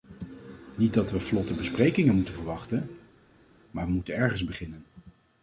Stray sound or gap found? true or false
false